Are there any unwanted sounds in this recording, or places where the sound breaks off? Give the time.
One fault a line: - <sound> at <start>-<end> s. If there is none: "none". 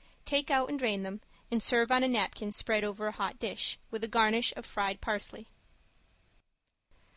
none